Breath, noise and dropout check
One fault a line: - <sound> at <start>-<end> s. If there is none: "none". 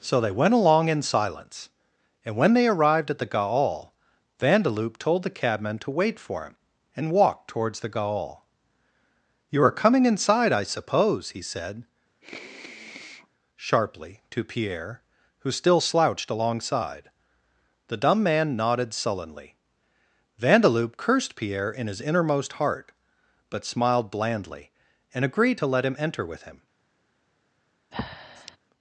- sniff at 12.2-13.3 s
- breath at 27.9-28.6 s